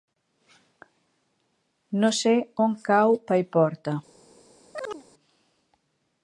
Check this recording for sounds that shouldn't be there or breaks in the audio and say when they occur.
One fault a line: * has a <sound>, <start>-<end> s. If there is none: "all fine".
* has a chirp, 4.7-5.0 s